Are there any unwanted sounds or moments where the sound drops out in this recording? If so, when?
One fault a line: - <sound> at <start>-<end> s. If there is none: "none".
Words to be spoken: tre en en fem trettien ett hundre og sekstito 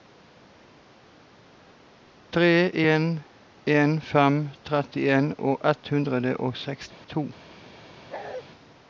- dropout at 6.9-7.0 s
- bark at 8.1-8.4 s